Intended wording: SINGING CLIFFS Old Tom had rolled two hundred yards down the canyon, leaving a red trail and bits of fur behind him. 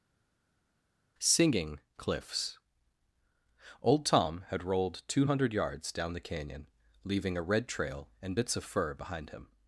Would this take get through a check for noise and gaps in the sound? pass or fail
pass